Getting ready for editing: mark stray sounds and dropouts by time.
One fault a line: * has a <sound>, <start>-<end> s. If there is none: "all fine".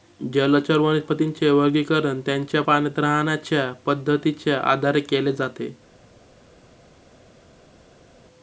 all fine